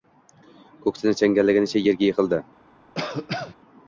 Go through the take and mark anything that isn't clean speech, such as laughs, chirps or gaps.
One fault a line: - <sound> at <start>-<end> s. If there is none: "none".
- cough at 2.9-3.5 s